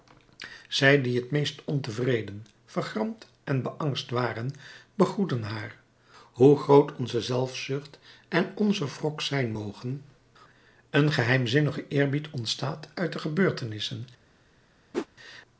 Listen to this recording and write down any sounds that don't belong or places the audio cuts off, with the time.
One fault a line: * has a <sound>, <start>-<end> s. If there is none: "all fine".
* has a whoosh, 14.9-15.1 s